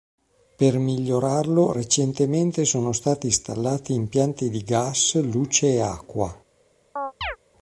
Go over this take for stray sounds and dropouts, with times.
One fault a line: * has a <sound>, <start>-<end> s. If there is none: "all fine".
* has a chirp, 7.0-7.4 s